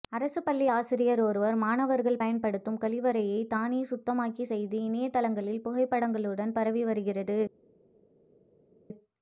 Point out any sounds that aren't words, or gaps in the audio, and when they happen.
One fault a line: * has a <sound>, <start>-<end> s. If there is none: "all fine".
all fine